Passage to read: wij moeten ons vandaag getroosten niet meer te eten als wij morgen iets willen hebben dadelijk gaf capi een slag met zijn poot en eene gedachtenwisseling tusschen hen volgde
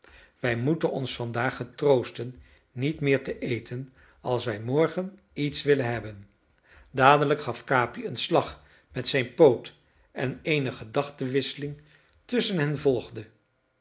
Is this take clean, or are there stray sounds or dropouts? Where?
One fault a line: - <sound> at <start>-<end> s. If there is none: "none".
none